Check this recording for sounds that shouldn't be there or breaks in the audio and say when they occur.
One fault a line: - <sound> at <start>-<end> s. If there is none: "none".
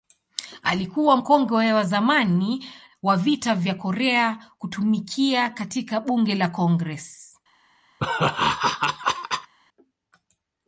- laugh at 8.0-9.5 s